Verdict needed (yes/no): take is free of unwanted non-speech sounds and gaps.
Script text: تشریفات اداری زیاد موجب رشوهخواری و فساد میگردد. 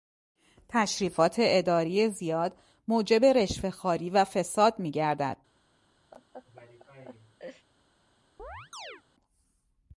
no